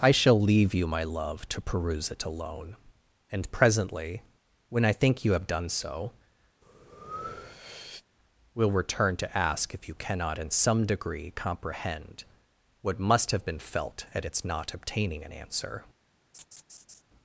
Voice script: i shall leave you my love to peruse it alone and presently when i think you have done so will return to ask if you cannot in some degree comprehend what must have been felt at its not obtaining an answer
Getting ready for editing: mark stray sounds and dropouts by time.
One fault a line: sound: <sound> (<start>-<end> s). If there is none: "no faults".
sound: breath (6.6-8.0 s)
sound: laugh (16.3-17.0 s)